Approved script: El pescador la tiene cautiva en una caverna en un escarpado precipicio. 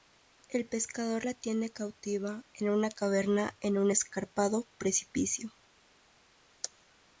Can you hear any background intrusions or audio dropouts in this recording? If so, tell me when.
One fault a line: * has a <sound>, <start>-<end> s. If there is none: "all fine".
all fine